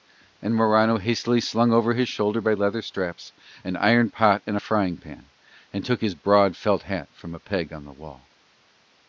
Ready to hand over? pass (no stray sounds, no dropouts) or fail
pass